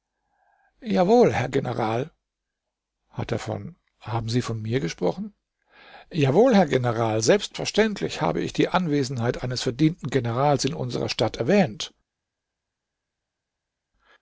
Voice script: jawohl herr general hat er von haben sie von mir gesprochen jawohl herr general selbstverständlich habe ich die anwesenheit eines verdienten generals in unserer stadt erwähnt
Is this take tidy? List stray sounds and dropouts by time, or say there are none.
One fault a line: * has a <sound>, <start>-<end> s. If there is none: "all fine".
all fine